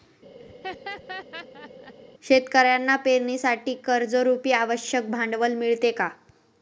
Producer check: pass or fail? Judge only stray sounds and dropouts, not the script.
fail